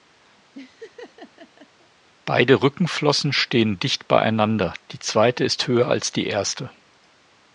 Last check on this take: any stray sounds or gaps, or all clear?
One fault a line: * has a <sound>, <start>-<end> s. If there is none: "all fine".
* has a laugh, 0.5-1.9 s